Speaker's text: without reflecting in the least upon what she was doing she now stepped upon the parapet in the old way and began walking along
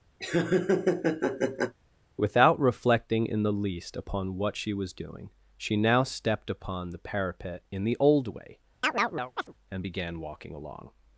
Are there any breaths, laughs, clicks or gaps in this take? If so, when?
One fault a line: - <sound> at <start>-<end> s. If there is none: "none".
- laugh at 0.2-1.7 s
- chirp at 8.8-9.5 s